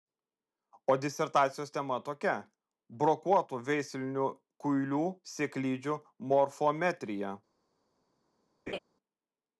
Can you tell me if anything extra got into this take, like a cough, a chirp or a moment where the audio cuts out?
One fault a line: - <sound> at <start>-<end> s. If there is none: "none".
- laugh at 8.7-8.8 s